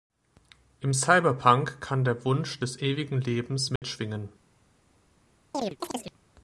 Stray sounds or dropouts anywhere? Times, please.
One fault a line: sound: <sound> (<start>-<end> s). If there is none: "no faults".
sound: dropout (3.8-3.8 s)
sound: chirp (5.5-6.2 s)